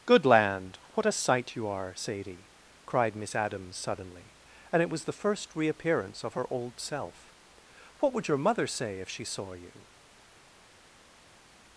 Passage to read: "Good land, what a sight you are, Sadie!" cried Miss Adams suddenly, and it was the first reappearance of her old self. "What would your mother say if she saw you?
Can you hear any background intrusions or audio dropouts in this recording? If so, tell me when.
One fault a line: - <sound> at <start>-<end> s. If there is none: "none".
none